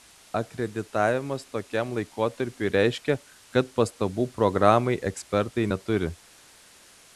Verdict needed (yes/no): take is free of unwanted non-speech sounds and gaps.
yes